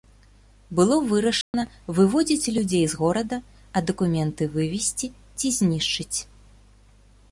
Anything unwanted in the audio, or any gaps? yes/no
yes